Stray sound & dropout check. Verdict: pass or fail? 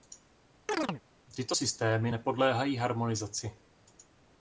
fail